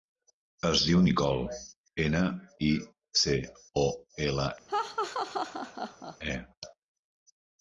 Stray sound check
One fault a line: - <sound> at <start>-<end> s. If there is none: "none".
- laugh at 4.7-6.2 s